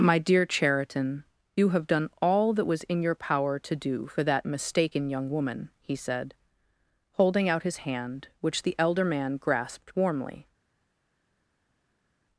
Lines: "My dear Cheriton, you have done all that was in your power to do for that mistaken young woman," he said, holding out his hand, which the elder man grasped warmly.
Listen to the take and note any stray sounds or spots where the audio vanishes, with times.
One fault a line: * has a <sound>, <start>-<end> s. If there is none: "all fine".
all fine